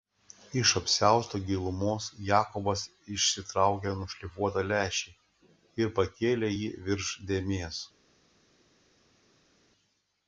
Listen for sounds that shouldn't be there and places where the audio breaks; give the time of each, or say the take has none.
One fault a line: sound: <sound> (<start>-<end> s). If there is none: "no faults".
no faults